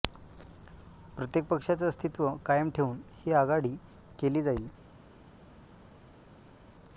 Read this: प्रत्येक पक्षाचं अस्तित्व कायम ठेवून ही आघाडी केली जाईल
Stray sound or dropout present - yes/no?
no